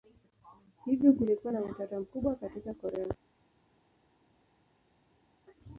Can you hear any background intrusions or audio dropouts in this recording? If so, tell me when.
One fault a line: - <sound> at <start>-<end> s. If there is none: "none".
none